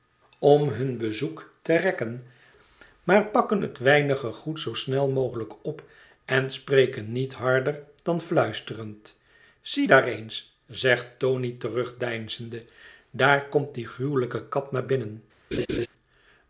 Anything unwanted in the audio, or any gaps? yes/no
yes